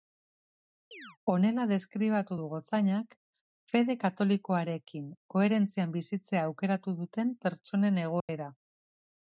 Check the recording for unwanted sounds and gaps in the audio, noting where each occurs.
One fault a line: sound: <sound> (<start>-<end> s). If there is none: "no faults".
sound: chirp (0.9-1.2 s)
sound: dropout (8.2-8.3 s)